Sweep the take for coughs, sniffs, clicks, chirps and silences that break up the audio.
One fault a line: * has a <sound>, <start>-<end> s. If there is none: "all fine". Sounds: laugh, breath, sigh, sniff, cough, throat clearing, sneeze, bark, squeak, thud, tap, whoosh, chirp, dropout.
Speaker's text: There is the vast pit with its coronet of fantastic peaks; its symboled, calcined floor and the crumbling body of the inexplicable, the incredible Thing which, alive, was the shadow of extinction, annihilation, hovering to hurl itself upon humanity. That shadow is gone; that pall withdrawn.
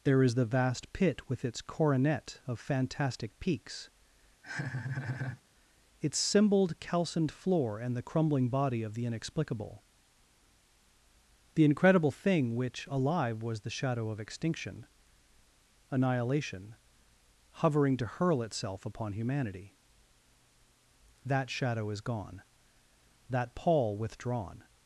* has a laugh, 4.4-5.4 s